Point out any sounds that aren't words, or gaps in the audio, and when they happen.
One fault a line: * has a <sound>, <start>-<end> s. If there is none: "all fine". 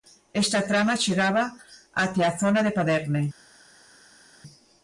all fine